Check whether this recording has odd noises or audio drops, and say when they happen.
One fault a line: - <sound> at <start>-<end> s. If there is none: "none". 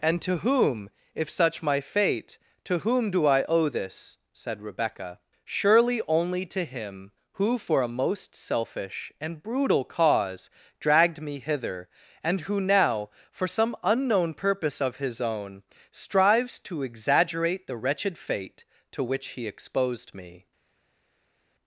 none